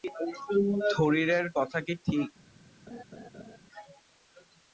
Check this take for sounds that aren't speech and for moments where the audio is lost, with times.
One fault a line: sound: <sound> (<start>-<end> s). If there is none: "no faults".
sound: laugh (2.9-3.6 s)